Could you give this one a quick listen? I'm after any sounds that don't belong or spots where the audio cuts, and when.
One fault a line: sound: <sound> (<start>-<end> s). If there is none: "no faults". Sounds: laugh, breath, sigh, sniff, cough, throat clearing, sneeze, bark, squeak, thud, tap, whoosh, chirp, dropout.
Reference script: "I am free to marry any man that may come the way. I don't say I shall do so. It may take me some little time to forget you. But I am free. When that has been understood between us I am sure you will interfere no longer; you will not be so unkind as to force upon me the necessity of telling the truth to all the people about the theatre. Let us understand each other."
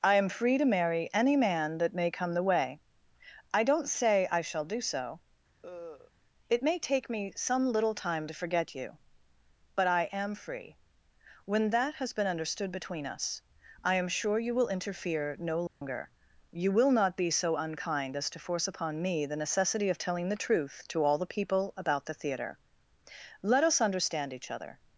sound: cough (5.6-6.1 s)
sound: dropout (15.7-15.8 s)